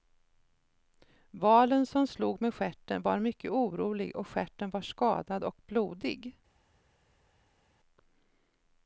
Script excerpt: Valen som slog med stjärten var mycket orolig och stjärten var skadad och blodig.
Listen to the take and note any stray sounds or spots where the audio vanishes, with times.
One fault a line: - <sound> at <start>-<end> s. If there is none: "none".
none